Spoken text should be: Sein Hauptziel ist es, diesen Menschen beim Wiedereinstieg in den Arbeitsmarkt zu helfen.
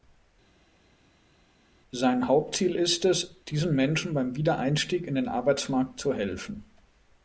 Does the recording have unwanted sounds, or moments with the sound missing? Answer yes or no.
no